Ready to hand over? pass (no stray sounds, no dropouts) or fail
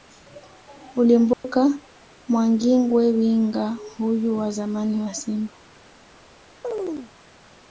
fail